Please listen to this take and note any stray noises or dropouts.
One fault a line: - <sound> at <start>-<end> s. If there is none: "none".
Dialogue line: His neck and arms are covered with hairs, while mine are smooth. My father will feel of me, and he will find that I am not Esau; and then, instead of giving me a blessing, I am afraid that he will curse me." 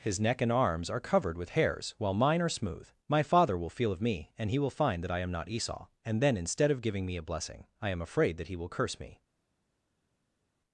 none